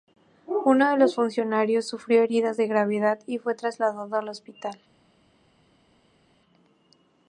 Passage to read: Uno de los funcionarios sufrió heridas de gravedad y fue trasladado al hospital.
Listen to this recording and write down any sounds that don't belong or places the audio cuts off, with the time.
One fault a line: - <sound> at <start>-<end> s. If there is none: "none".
none